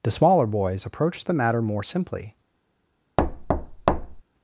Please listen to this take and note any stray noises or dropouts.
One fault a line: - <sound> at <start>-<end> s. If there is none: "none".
- thud at 3.2-4.2 s